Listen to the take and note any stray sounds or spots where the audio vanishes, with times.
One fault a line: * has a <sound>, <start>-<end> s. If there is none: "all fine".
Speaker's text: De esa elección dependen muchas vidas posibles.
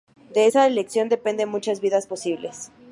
all fine